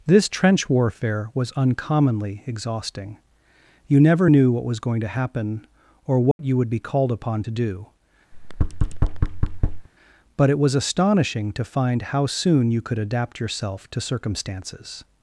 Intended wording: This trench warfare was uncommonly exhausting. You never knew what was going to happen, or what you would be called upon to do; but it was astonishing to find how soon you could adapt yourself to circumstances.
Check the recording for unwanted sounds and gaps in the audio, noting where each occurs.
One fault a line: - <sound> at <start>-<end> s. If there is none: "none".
- dropout at 6.3-6.4 s
- thud at 8.3-9.9 s